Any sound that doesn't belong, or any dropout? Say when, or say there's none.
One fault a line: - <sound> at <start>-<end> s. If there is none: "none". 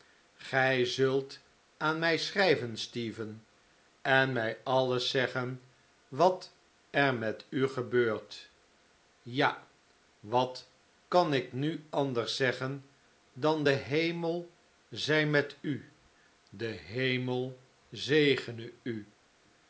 none